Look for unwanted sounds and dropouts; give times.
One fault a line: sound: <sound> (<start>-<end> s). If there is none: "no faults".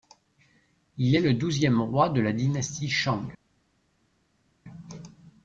no faults